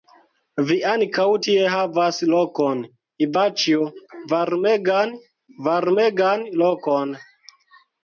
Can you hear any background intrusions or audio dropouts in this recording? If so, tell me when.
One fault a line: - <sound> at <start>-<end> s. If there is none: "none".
none